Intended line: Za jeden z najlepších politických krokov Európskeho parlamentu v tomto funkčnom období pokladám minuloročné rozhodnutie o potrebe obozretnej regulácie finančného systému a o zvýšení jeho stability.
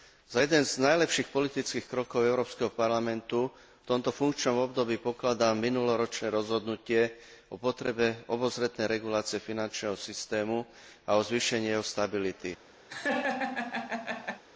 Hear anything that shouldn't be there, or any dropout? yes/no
yes